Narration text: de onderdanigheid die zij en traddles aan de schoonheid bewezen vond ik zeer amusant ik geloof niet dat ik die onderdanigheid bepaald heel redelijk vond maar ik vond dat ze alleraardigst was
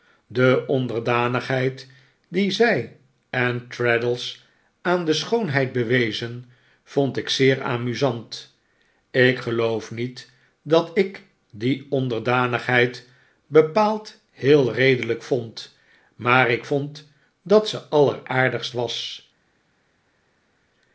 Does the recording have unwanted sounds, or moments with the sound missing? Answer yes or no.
no